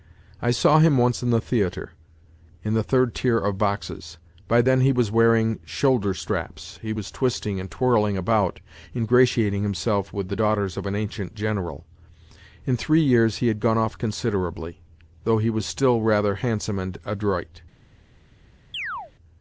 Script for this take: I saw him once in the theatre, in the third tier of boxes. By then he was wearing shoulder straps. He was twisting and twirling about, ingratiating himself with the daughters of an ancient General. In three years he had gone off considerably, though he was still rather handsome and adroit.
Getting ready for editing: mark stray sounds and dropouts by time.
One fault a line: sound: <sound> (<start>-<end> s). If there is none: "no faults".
sound: chirp (18.7-19.1 s)